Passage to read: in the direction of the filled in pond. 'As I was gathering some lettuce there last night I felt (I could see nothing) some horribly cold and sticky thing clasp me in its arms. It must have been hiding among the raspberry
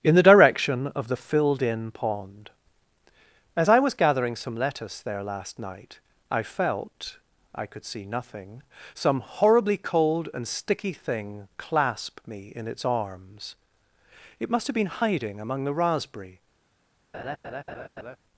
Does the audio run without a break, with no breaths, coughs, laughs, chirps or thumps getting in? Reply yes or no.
no